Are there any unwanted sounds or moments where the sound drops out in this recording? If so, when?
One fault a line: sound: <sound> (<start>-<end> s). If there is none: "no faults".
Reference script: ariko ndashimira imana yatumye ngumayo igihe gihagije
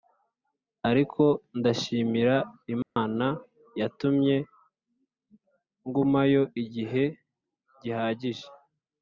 sound: dropout (2.8-3.0 s)